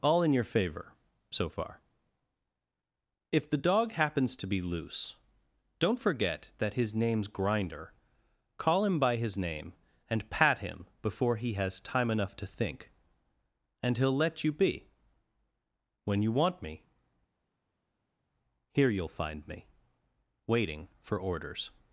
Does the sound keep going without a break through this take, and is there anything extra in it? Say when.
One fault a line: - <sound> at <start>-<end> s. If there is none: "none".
none